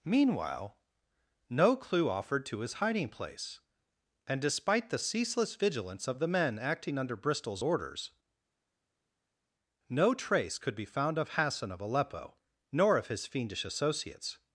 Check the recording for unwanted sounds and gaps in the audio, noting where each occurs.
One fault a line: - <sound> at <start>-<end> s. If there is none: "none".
none